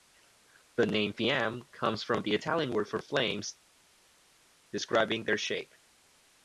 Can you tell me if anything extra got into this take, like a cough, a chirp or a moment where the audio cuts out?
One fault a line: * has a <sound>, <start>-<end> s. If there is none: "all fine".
all fine